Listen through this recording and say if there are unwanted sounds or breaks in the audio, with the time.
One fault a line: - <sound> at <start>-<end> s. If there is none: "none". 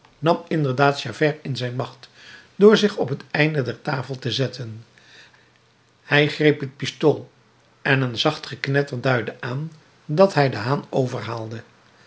none